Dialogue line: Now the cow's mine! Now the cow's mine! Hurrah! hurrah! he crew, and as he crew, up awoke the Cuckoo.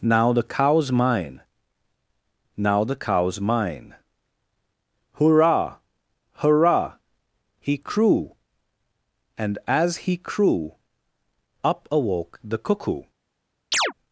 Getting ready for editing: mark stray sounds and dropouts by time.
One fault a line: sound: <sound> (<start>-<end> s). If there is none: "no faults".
sound: chirp (13.7-13.9 s)